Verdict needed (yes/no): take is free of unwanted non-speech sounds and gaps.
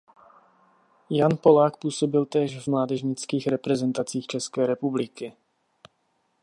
yes